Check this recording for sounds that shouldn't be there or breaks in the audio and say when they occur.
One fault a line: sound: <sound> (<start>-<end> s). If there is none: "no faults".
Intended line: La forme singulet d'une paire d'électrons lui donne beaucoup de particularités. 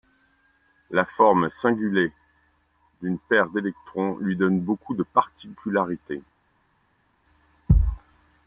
no faults